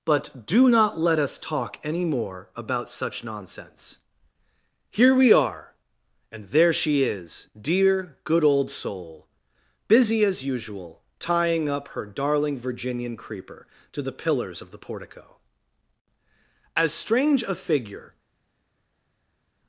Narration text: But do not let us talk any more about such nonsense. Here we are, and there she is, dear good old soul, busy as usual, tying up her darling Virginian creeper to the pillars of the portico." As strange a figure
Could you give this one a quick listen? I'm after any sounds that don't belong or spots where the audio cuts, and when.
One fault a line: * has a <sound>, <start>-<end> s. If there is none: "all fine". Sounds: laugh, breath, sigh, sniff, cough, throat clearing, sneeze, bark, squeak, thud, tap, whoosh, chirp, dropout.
all fine